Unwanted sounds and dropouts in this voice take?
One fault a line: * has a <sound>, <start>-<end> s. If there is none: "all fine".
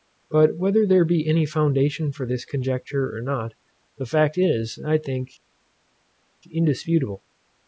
all fine